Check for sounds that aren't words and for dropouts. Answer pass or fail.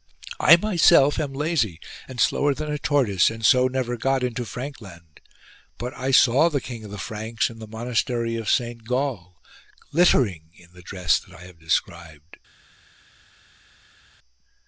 pass